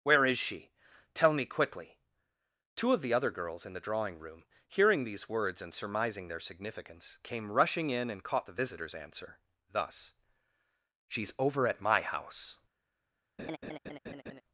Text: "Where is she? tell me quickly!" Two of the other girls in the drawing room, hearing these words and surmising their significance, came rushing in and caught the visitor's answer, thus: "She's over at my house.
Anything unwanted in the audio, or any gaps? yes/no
yes